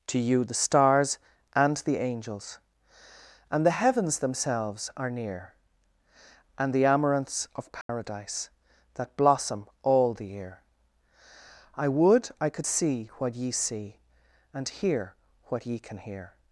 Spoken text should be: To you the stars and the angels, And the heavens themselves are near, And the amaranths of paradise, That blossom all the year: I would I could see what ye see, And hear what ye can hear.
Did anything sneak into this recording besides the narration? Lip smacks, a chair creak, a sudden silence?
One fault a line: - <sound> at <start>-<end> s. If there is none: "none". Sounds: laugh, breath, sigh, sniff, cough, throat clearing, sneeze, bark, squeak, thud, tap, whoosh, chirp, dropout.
- dropout at 7.8-7.9 s